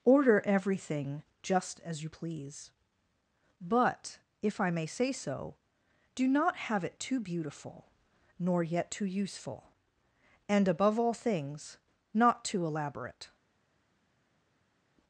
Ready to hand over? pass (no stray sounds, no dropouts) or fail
pass